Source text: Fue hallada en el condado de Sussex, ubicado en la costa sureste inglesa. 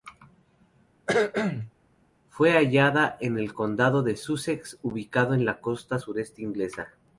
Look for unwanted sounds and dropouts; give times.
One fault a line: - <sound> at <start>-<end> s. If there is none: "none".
- cough at 1.1-1.7 s